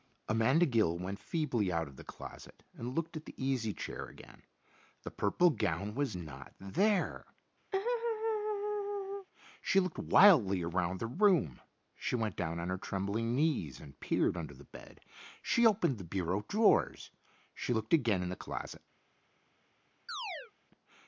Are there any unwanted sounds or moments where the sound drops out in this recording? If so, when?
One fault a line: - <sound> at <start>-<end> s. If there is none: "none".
- laugh at 7.7-9.3 s
- chirp at 20.1-20.5 s